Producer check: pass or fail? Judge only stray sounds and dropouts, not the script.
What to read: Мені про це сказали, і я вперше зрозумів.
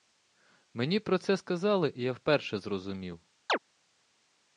fail